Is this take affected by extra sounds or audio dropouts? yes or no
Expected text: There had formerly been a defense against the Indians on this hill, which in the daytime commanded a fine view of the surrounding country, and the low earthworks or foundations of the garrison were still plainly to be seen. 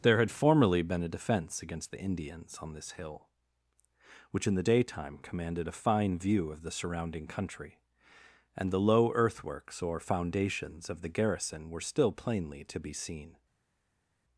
no